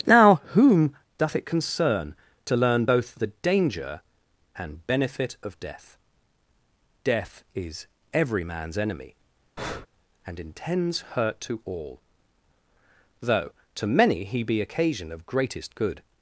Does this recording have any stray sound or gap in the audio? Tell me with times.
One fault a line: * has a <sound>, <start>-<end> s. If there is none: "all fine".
* has a breath, 9.6-9.9 s